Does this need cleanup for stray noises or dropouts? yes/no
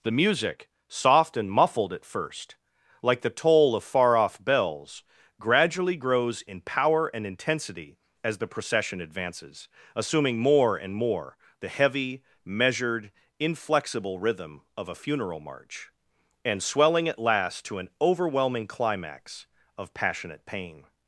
no